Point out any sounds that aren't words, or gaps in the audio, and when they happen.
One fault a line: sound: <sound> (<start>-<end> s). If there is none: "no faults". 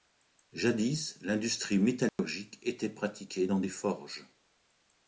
sound: dropout (2.1-2.2 s)